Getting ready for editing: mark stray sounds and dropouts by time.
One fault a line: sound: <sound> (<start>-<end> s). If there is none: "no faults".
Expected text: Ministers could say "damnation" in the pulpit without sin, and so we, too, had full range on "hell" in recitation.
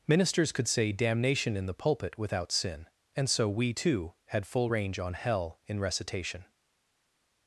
no faults